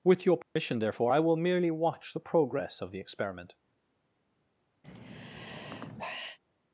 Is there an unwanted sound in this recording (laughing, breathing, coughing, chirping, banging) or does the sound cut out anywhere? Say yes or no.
yes